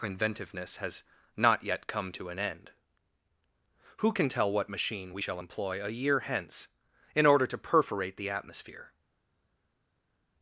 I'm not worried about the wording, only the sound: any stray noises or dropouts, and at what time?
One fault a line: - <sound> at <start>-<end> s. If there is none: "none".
none